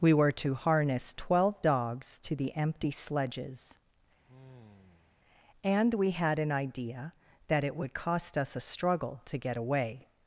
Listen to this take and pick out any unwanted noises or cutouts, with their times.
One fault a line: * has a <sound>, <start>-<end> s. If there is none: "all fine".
* has a sigh, 4.3-5.2 s